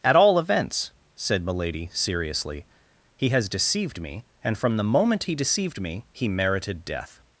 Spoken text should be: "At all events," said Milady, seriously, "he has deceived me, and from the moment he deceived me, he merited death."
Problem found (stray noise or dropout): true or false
false